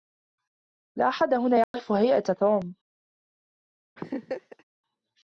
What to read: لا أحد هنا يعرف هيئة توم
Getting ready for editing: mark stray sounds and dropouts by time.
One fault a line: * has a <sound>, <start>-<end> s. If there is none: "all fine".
* has a dropout, 1.6-1.7 s
* has a laugh, 4.0-4.6 s